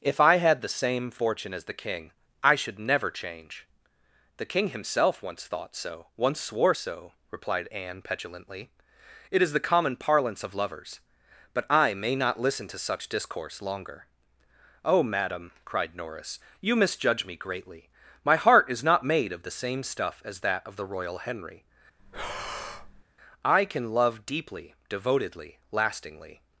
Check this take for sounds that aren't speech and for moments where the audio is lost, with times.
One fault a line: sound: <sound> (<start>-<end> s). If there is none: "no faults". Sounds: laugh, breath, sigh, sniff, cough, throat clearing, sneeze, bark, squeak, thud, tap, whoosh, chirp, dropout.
sound: breath (22.0-23.0 s)